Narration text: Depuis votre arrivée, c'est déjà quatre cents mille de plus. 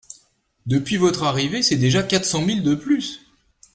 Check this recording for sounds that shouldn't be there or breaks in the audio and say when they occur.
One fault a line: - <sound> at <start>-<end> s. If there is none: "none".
none